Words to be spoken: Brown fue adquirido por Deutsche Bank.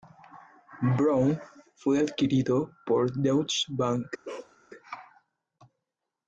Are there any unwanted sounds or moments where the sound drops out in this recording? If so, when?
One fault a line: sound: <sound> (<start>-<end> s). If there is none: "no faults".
sound: bark (4.2-4.6 s)